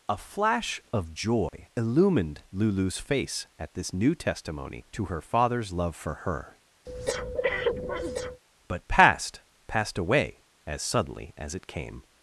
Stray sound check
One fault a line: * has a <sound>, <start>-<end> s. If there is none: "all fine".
* has a dropout, 1.5-1.5 s
* has a breath, 6.9-8.4 s